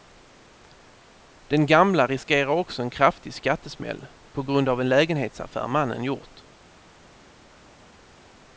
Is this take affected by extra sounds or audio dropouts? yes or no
no